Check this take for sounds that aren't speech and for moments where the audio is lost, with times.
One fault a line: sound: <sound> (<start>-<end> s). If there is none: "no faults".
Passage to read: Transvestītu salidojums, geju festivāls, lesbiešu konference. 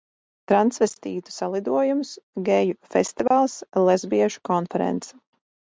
sound: dropout (3.3-3.3 s)